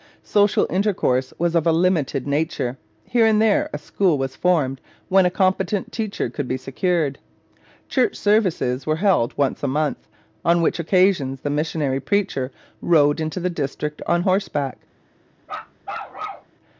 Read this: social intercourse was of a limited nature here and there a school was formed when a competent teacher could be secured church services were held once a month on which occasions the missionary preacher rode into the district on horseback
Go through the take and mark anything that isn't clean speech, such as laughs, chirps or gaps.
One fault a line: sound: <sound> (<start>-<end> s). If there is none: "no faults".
sound: bark (15.4-16.5 s)